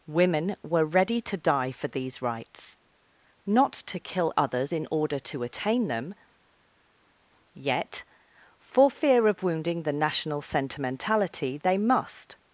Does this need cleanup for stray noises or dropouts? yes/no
no